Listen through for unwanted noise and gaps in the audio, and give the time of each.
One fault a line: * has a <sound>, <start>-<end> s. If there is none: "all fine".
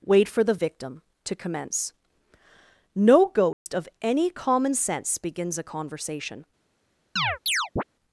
* has a dropout, 3.5-3.7 s
* has a chirp, 7.2-7.8 s